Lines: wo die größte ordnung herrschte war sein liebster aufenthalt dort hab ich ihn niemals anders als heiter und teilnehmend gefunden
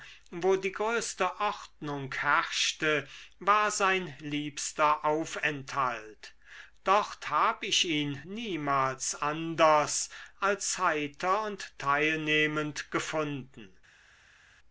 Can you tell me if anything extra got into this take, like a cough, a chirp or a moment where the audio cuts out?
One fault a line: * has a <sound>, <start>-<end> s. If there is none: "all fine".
all fine